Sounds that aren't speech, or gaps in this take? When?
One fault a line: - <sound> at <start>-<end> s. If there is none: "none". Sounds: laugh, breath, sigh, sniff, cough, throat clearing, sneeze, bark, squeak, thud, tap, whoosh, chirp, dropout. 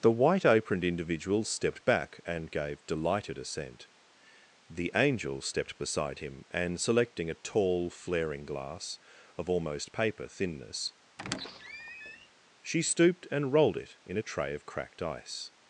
- squeak at 11.2-12.3 s